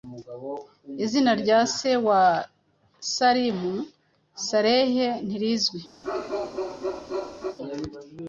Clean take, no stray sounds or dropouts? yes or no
no